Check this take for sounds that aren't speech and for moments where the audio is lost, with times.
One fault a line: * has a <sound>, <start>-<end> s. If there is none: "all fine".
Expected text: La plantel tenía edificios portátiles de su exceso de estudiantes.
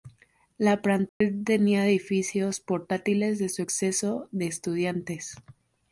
* has a dropout, 1.1-1.2 s